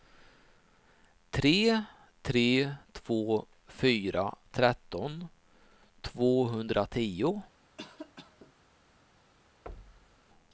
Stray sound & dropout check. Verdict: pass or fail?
fail